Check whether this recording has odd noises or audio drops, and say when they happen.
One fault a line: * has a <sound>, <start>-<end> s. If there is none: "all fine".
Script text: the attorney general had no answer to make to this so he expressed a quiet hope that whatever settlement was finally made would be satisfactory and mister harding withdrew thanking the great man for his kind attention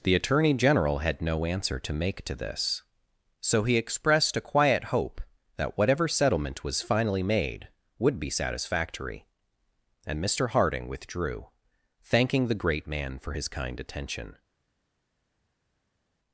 all fine